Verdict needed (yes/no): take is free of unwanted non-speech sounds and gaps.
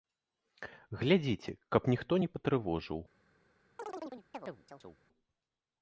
no